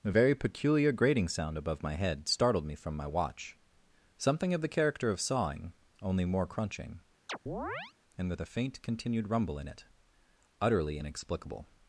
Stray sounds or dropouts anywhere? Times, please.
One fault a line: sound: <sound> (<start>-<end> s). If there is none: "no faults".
sound: chirp (7.3-7.9 s)